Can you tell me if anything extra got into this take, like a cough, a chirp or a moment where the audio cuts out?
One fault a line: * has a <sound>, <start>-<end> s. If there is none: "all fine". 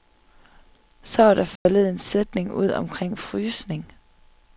* has a dropout, 1.6-1.7 s